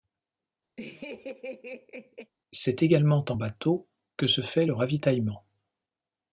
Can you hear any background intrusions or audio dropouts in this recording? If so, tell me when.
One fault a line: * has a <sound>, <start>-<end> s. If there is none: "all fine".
* has a laugh, 0.8-2.3 s